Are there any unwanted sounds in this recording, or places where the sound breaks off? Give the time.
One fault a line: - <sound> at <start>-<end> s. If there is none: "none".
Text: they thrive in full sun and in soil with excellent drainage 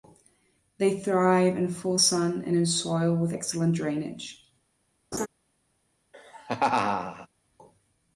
- laugh at 5.1-5.3 s
- laugh at 6.1-7.3 s